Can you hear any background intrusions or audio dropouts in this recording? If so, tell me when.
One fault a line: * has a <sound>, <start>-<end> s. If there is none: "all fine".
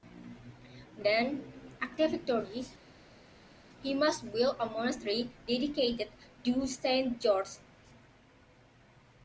all fine